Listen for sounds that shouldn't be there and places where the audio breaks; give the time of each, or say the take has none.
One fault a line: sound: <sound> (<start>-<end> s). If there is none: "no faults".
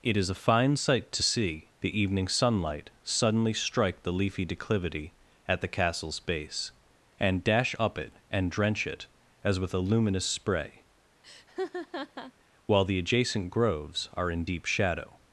sound: laugh (11.2-12.3 s)